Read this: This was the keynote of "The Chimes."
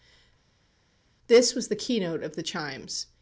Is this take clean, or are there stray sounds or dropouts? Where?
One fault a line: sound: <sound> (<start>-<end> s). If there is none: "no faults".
no faults